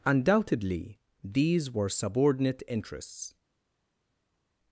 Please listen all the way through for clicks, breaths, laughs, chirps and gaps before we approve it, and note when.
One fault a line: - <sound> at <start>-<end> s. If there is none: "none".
none